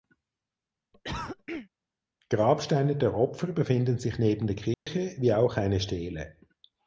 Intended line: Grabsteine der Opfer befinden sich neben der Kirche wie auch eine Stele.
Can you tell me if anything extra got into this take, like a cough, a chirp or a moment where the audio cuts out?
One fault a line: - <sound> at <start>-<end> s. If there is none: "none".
- cough at 0.9-1.7 s
- dropout at 4.7-4.9 s